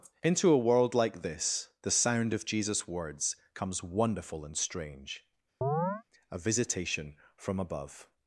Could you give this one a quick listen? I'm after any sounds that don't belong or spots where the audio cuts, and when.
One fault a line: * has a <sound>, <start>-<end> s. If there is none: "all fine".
* has a chirp, 5.6-6.0 s